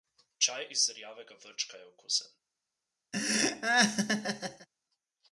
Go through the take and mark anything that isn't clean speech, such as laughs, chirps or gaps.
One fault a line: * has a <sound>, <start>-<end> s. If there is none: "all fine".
* has a laugh, 3.1-4.7 s